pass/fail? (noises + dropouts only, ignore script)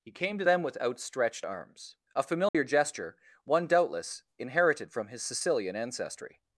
fail